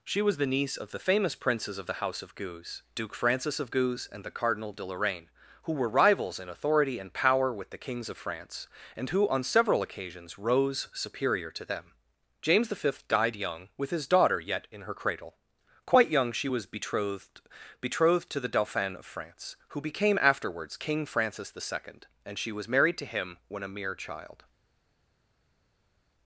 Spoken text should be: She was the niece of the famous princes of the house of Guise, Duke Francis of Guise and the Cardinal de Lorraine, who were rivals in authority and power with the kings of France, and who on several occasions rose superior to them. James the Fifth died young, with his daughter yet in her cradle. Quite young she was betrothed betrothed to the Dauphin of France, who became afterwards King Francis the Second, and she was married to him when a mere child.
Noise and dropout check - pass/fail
pass